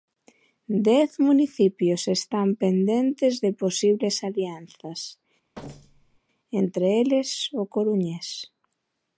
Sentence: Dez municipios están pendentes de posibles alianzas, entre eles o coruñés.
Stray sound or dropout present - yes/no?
yes